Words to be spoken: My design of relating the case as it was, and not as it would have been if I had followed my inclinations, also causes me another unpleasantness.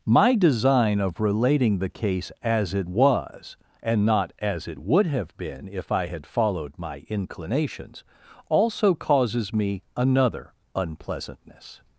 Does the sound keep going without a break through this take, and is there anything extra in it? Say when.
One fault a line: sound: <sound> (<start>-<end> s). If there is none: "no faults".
no faults